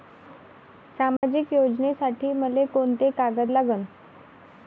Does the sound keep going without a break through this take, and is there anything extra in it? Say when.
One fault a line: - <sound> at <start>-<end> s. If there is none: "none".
- dropout at 1.2-1.2 s